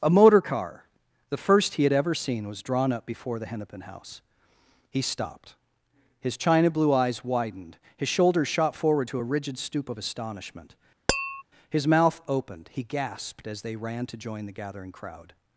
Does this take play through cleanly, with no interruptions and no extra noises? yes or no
no